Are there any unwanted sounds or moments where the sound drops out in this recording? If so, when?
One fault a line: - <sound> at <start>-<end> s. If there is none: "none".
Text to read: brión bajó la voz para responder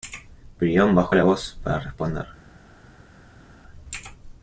none